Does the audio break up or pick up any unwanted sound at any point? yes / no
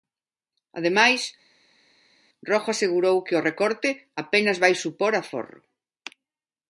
no